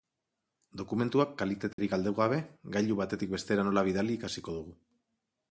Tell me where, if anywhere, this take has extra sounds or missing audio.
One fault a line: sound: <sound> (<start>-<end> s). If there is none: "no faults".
sound: dropout (1.7-1.8 s)